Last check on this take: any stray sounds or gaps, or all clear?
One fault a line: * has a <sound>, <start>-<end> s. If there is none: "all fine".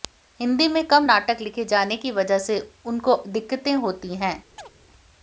* has a chirp, 4.6-4.7 s